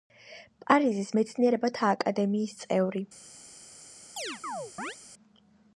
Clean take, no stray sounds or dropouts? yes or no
no